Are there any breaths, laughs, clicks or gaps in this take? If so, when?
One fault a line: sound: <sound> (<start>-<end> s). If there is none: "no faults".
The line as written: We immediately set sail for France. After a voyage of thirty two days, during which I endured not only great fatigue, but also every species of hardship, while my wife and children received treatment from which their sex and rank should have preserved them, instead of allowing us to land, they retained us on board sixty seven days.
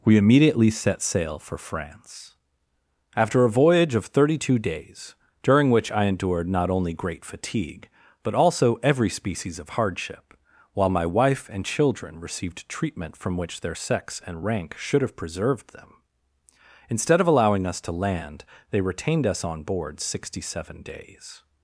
no faults